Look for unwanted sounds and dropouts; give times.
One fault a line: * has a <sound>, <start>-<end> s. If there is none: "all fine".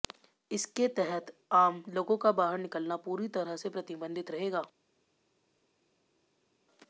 all fine